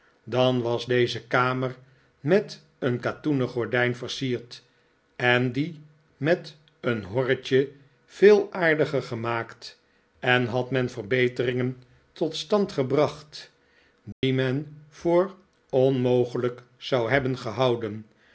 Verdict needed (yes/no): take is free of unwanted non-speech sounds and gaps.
no